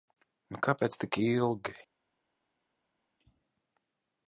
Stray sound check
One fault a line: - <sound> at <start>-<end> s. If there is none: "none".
none